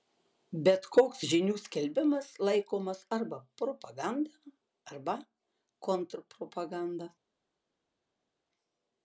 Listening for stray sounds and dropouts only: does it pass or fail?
pass